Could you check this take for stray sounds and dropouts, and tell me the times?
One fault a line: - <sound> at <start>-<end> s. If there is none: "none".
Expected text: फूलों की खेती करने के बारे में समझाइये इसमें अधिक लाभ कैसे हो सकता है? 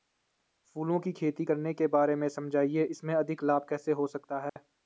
- dropout at 4.5-4.6 s